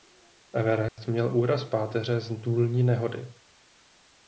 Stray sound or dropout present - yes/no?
yes